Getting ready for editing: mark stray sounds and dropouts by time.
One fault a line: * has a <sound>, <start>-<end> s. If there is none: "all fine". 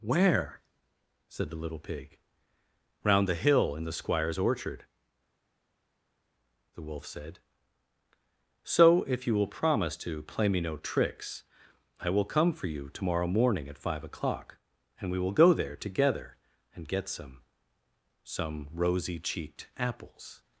all fine